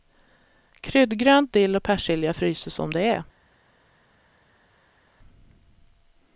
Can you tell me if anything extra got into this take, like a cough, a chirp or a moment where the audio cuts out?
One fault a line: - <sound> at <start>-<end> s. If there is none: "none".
none